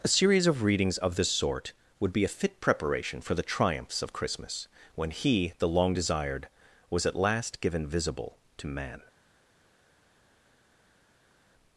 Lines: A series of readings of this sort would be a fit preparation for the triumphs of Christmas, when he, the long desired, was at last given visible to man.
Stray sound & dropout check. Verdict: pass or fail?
pass